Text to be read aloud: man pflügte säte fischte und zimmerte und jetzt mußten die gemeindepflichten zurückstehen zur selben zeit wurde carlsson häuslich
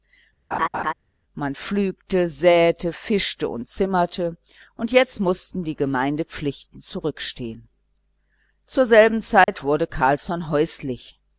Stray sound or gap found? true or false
true